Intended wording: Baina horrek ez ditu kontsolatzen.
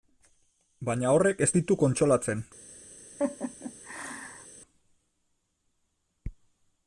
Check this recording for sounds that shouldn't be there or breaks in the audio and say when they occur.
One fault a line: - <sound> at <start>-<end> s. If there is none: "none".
- laugh at 3.2-4.5 s